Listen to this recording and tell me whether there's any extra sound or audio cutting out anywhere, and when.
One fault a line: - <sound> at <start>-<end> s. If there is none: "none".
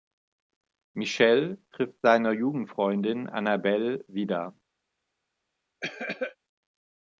- cough at 5.8-6.4 s